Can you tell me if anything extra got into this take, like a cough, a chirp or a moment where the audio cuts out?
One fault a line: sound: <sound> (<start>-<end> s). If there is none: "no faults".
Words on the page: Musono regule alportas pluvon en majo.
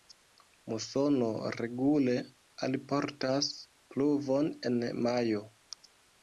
no faults